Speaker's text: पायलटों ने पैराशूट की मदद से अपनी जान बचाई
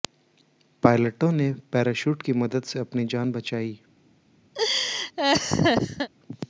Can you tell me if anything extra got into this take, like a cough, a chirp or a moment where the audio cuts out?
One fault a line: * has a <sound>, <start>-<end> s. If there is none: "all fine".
* has a laugh, 4.5-6.1 s